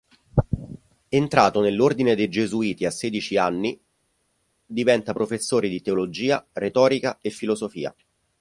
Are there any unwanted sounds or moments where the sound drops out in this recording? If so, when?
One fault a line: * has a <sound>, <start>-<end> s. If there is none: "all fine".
all fine